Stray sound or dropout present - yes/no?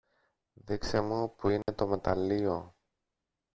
yes